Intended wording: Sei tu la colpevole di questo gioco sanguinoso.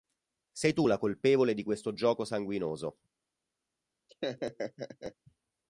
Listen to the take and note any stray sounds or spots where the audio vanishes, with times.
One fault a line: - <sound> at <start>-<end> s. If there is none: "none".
- laugh at 4.1-5.2 s